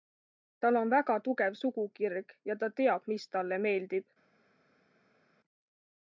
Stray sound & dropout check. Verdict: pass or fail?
pass